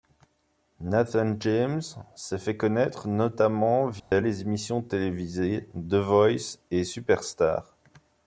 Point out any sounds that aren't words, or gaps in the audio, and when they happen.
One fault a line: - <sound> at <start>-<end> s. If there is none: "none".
- dropout at 4.0-4.1 s